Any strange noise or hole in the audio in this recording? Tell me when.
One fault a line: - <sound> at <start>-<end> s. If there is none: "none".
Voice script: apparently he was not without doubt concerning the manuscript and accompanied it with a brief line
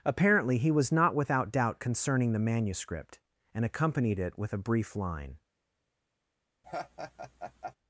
- laugh at 6.6-7.8 s